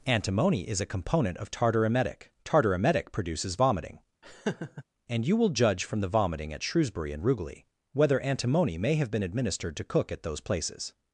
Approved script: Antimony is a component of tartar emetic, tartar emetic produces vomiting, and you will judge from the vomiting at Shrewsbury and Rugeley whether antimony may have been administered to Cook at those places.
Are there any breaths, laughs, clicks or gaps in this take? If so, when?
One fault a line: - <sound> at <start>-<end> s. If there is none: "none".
- laugh at 4.2-4.8 s